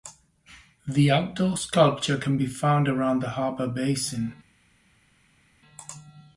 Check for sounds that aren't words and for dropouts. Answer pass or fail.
pass